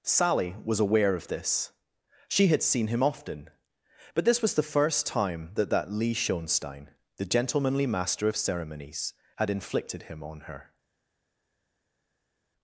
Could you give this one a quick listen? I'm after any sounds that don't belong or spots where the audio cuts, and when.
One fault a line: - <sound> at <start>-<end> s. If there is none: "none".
none